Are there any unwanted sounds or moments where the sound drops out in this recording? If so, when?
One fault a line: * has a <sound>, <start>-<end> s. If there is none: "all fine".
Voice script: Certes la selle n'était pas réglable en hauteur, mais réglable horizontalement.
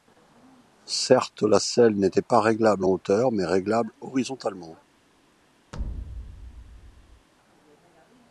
* has a thud, 5.7-7.3 s